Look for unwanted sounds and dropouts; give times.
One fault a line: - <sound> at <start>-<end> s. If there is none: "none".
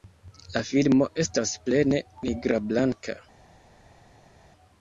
none